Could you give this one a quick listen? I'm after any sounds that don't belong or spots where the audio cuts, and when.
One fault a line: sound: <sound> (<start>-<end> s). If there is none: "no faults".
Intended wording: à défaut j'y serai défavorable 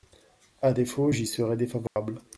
sound: dropout (1.9-2.0 s)